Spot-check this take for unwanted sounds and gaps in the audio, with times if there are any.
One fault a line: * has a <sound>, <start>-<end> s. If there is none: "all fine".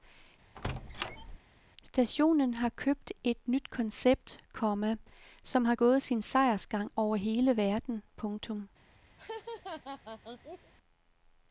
* has a squeak, 0.6-1.4 s
* has a laugh, 9.2-10.7 s